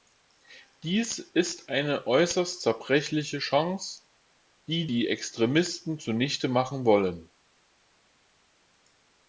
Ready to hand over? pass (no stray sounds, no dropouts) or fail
pass